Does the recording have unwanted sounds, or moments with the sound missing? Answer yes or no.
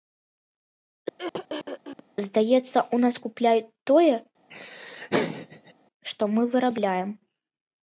yes